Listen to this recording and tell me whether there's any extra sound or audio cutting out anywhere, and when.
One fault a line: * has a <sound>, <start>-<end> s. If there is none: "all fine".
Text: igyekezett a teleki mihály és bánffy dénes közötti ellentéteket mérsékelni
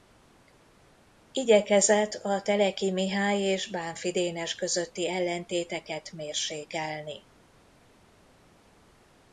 all fine